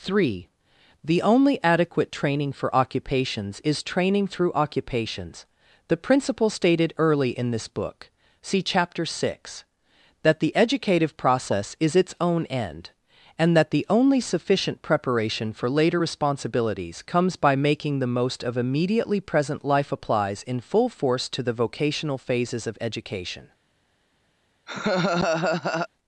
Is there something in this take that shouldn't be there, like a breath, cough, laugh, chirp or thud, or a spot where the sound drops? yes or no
yes